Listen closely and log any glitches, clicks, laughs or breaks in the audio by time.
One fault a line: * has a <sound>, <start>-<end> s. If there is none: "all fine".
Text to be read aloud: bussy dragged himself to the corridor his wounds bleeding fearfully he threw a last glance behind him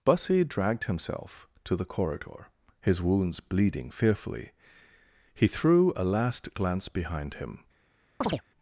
* has a chirp, 8.2-8.4 s